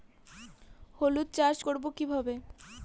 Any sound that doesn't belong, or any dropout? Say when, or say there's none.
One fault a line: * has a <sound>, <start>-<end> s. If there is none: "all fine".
all fine